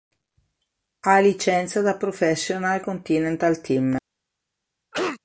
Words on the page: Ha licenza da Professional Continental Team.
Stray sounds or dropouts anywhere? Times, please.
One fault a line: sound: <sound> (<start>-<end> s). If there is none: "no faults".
sound: cough (4.9-5.2 s)